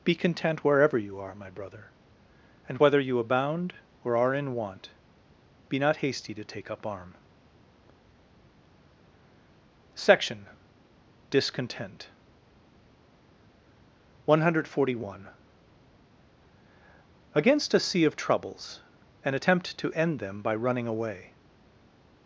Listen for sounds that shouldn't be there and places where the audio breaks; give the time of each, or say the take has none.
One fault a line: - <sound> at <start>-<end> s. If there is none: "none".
none